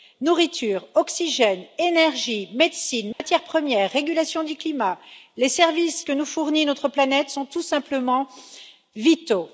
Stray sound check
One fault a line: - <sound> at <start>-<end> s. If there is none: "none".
- dropout at 3.1-3.2 s